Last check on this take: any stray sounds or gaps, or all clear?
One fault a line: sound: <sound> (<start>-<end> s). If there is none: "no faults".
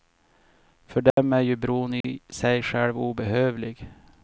sound: dropout (1.1-1.2 s)
sound: dropout (2.0-2.0 s)